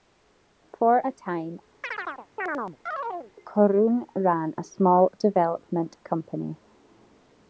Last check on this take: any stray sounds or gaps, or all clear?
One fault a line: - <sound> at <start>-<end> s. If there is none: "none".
- chirp at 1.8-3.3 s